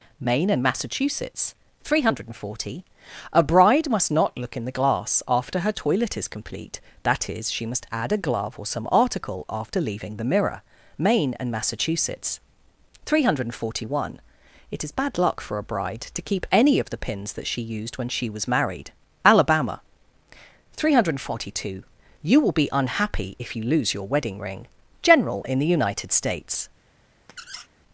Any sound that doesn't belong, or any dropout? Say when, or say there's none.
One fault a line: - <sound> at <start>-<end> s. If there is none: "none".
- squeak at 27.3-27.7 s